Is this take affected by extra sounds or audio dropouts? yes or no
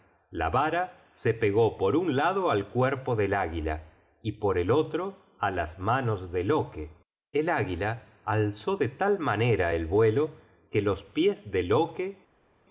no